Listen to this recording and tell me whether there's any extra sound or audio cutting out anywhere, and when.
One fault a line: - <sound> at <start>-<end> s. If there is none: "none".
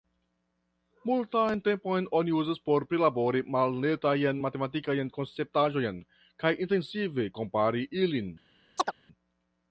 - chirp at 8.8-8.9 s